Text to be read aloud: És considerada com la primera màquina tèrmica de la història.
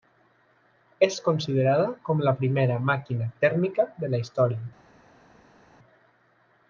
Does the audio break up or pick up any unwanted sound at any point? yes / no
no